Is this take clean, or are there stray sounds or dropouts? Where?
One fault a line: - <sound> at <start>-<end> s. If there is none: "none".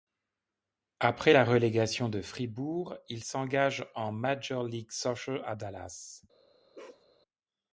- bark at 6.7-7.0 s